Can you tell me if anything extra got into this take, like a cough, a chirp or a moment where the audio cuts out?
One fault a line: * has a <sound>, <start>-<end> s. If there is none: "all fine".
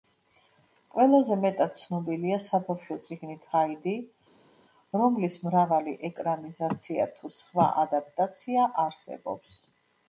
all fine